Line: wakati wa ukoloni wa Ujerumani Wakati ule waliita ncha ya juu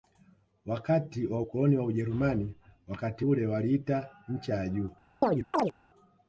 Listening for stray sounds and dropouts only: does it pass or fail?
fail